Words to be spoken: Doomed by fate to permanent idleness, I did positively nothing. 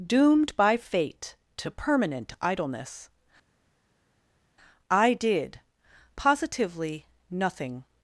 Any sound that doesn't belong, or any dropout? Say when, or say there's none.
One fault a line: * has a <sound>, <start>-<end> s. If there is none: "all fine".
all fine